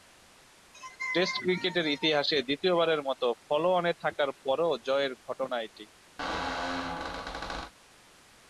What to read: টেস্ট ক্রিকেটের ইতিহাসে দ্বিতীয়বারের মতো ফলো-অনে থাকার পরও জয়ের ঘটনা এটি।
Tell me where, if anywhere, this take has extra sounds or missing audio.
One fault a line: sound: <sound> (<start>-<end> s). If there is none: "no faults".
sound: squeak (6.2-7.7 s)